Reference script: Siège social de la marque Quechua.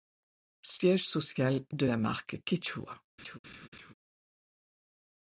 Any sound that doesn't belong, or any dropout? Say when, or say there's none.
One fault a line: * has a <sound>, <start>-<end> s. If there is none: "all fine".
* has a laugh, 3.2-3.9 s